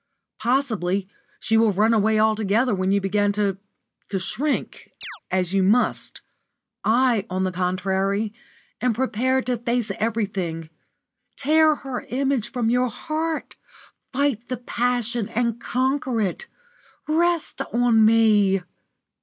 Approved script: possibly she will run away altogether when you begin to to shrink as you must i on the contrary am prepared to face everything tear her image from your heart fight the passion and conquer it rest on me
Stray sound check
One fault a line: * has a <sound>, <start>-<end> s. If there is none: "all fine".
* has a chirp, 5.0-5.2 s